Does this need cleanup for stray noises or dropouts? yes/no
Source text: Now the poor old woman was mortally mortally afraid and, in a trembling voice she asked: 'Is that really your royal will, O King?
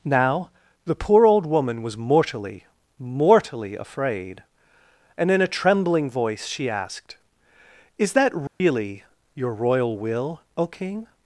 yes